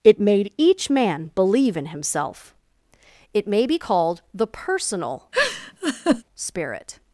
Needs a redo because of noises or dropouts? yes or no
yes